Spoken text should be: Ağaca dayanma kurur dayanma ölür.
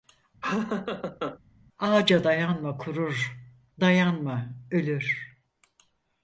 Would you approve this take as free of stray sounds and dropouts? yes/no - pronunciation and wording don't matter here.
no